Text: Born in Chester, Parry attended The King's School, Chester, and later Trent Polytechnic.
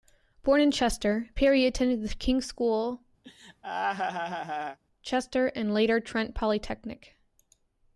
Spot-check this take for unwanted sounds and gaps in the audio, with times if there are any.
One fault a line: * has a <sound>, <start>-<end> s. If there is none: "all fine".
* has a laugh, 3.2-4.8 s